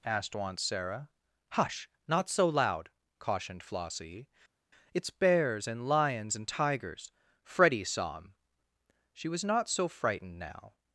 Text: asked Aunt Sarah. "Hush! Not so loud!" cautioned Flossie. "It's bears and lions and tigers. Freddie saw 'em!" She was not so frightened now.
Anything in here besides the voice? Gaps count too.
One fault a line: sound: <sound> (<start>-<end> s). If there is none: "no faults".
no faults